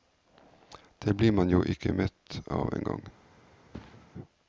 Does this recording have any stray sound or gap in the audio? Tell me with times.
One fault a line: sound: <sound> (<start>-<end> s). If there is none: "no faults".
sound: thud (3.7-4.1 s)